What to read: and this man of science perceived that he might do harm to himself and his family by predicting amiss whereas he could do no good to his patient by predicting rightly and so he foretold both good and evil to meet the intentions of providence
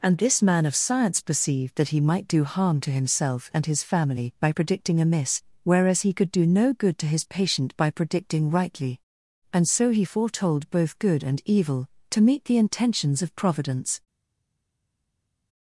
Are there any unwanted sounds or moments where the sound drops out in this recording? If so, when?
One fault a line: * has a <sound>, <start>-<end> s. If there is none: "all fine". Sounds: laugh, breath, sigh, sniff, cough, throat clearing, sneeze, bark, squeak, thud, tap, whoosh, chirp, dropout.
all fine